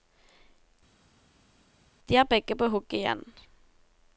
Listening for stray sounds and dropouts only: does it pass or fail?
pass